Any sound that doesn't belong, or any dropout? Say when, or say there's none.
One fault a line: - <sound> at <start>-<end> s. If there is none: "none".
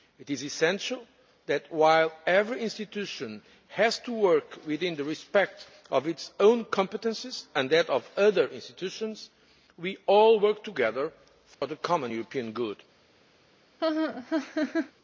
- dropout at 11.5-11.6 s
- laugh at 13.8-14.9 s